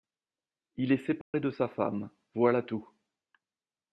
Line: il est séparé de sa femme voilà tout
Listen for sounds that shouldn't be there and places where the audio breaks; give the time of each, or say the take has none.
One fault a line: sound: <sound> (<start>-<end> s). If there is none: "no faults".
sound: dropout (1.2-1.3 s)